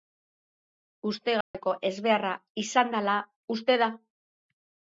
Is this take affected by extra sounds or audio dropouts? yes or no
yes